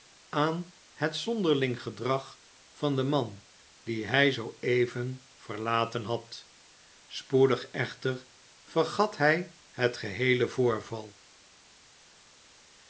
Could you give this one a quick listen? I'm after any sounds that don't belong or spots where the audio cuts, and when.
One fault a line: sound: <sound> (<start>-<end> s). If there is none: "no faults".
no faults